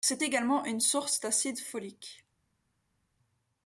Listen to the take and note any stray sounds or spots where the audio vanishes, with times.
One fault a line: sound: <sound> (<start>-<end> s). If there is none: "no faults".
no faults